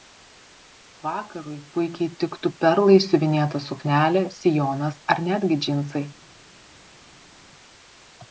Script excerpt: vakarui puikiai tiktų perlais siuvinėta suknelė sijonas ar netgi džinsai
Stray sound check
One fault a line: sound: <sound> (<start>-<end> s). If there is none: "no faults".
no faults